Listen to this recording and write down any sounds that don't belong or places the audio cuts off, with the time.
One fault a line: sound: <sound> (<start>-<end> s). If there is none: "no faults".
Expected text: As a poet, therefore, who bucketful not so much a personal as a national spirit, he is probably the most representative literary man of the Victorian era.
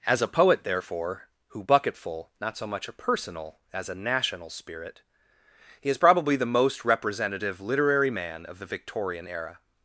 no faults